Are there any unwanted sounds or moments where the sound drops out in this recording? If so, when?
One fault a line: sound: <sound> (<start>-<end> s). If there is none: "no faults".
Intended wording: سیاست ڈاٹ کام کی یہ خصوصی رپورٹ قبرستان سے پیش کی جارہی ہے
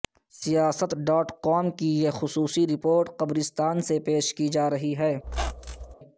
sound: squeak (5.2-5.9 s)